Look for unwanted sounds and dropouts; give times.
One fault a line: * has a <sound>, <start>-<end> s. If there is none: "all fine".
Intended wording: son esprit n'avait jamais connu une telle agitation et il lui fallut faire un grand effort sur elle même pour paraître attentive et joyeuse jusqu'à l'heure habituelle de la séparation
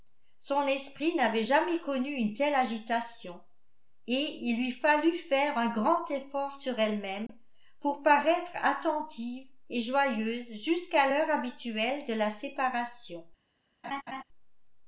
* has a dropout, 7.3-7.3 s
* has a laugh, 13.8-14.2 s